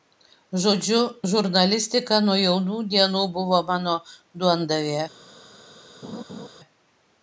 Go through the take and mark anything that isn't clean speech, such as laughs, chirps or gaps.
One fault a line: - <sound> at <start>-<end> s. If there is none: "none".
- laugh at 6.0-6.5 s